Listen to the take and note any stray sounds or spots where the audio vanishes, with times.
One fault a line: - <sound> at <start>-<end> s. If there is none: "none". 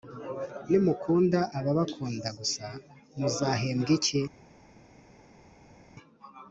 none